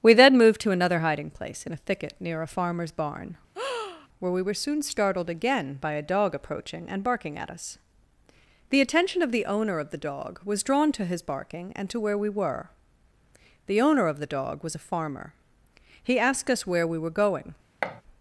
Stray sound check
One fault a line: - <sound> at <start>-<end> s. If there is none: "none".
- breath at 3.5-4.1 s
- thud at 17.8-18.0 s